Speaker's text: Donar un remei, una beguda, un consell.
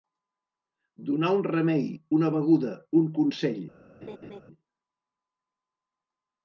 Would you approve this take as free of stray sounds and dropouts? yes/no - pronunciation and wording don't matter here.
no